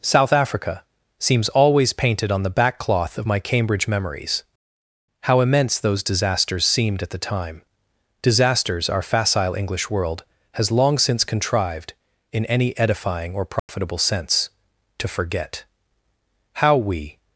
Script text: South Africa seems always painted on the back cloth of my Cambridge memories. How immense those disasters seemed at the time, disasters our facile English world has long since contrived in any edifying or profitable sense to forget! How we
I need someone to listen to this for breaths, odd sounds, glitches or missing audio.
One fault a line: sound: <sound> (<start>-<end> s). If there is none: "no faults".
sound: dropout (13.6-13.7 s)